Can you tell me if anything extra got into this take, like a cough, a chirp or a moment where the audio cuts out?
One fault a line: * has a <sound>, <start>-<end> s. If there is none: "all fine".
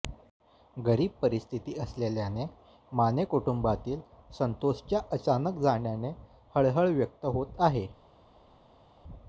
all fine